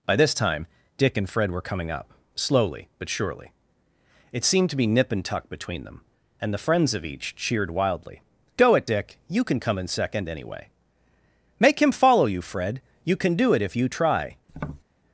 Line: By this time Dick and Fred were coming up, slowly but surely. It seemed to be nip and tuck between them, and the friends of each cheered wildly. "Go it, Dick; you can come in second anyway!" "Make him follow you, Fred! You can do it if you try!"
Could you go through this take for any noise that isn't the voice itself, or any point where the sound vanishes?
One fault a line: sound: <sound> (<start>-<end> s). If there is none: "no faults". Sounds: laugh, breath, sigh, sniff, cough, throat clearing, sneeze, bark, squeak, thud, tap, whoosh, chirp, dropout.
sound: tap (14.5-14.8 s)